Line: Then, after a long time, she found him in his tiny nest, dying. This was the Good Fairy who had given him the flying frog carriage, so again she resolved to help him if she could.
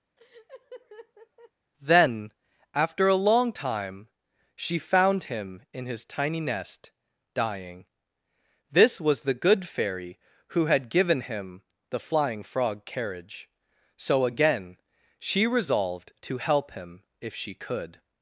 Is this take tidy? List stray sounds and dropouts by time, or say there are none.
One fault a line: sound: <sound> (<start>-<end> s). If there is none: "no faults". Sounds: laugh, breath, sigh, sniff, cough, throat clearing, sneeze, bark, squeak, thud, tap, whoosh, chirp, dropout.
sound: laugh (0.2-1.5 s)